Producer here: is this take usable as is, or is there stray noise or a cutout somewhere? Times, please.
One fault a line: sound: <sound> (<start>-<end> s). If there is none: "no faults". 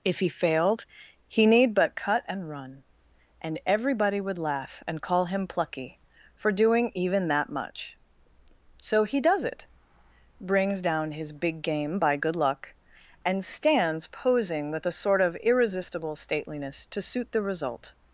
no faults